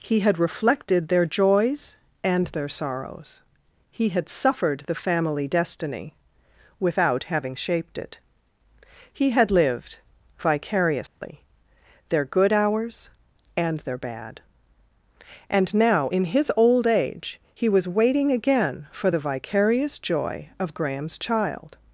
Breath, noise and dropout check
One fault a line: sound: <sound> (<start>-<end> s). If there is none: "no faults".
sound: dropout (11.1-11.2 s)